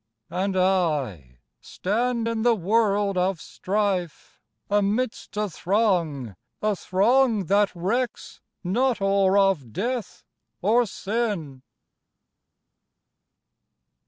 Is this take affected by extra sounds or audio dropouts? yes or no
no